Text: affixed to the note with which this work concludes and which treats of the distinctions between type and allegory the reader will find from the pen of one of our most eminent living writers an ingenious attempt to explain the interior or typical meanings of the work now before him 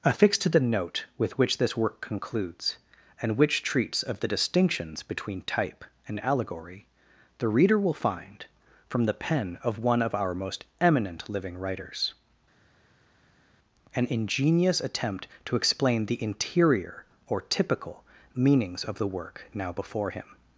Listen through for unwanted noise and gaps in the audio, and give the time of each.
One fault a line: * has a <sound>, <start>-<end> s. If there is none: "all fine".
all fine